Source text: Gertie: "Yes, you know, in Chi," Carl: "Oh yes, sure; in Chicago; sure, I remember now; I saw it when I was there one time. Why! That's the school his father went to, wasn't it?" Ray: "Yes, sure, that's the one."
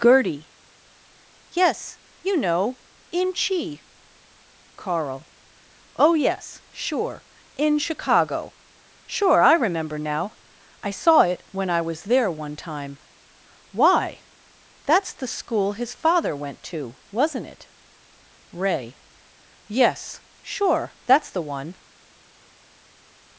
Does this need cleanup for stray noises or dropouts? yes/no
no